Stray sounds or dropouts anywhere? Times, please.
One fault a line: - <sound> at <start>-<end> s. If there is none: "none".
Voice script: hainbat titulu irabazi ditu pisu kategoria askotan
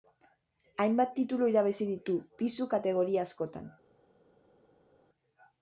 none